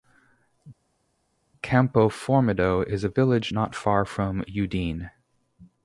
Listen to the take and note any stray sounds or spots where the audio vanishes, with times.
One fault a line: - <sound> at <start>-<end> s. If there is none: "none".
none